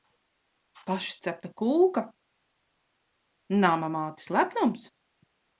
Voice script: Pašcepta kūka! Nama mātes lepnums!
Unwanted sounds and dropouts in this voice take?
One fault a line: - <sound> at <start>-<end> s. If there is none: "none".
none